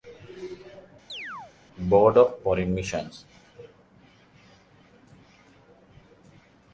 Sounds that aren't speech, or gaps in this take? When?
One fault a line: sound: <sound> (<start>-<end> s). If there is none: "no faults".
sound: chirp (1.1-1.5 s)